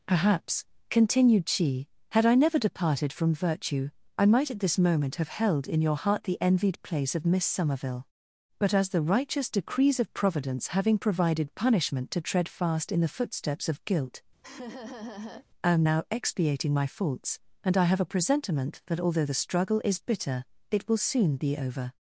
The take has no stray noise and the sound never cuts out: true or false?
false